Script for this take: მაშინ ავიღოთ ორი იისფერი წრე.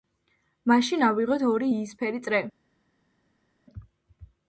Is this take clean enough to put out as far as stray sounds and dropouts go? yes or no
yes